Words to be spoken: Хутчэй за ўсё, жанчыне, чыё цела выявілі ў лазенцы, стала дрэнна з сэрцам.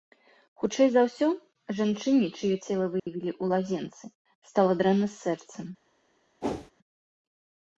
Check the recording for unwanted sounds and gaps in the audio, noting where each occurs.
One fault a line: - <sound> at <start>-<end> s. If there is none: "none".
- dropout at 3.0-3.1 s
- whoosh at 6.4-6.7 s